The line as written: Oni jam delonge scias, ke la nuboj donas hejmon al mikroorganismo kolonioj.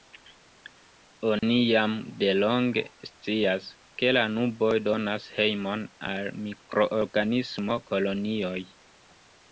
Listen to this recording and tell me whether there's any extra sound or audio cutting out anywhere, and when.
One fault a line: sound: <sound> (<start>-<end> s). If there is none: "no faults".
sound: dropout (1.4-1.4 s)